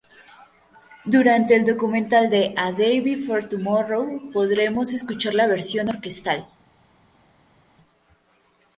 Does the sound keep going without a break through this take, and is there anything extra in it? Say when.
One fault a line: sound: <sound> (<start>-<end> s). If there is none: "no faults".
no faults